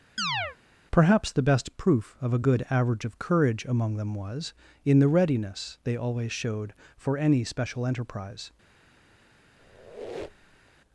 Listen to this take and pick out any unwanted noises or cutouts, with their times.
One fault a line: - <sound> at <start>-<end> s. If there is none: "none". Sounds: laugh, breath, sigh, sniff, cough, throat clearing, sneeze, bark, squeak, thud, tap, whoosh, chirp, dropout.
- chirp at 0.2-0.6 s
- squeak at 9.6-10.7 s